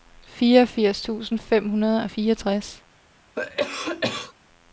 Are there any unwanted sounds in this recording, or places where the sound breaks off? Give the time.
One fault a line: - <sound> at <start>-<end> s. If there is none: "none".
- cough at 3.4-4.3 s